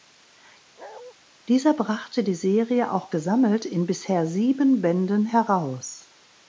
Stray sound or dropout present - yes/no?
yes